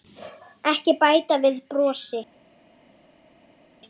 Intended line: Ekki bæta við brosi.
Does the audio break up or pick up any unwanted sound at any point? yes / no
no